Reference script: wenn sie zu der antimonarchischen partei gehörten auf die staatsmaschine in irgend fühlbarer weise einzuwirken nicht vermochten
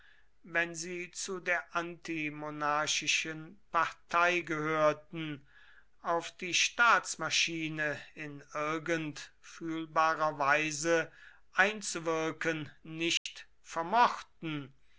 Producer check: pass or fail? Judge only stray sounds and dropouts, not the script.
fail